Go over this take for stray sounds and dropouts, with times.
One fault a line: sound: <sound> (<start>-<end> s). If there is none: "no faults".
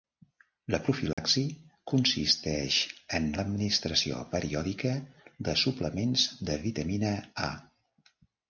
sound: dropout (1.1-1.2 s)